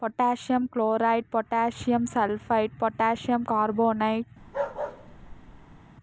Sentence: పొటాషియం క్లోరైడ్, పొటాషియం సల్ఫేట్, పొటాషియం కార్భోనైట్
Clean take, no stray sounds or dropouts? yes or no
no